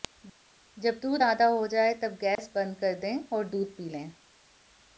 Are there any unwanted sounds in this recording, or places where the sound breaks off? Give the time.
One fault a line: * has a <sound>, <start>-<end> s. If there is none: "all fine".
* has a dropout, 2.4-2.4 s